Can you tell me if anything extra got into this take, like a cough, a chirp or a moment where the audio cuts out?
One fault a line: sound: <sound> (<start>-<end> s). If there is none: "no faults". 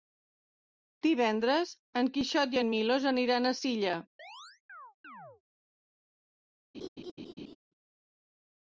sound: chirp (4.2-5.4 s)
sound: laugh (6.7-7.6 s)